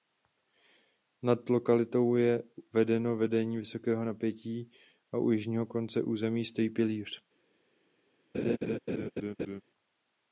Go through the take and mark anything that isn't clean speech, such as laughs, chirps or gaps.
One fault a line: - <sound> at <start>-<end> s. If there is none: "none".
- laugh at 8.3-9.6 s